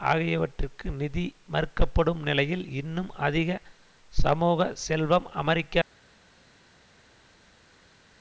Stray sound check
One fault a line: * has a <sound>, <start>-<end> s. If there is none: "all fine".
all fine